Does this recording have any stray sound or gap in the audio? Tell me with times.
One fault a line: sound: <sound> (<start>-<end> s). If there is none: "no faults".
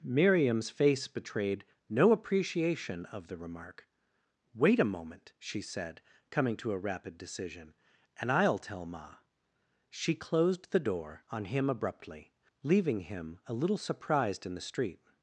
no faults